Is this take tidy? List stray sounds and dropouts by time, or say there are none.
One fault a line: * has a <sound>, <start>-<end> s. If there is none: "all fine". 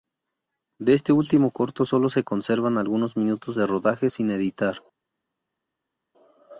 all fine